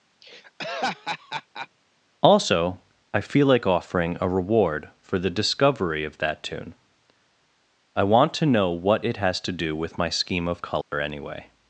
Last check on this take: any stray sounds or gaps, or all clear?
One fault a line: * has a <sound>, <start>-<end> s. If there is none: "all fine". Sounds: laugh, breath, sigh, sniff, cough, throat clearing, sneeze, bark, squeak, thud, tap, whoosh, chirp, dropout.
* has a laugh, 0.2-1.7 s
* has a dropout, 10.8-10.9 s